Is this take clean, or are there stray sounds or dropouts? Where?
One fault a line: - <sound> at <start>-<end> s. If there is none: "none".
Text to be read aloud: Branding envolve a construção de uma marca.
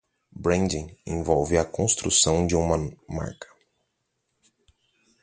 none